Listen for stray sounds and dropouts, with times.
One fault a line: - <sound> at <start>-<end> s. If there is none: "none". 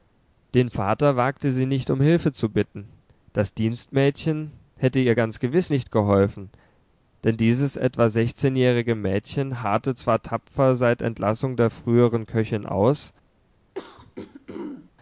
- throat clearing at 13.7-14.9 s